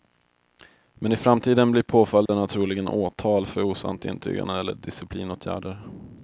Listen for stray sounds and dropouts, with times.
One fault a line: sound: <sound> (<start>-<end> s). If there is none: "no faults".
sound: dropout (2.3-2.3 s)